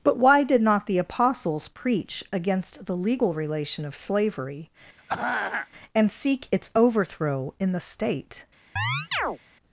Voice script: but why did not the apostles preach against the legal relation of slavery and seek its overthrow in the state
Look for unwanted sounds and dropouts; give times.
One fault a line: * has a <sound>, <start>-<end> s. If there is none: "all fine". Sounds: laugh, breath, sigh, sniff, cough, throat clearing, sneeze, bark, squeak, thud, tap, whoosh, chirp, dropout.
* has a throat clearing, 5.0-5.7 s
* has a chirp, 8.8-9.4 s